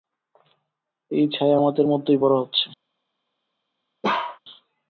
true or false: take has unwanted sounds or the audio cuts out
true